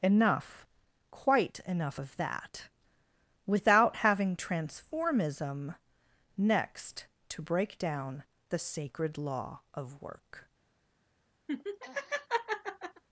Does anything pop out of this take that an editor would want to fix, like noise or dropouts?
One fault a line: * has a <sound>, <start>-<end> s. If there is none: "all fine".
* has a laugh, 11.5-13.0 s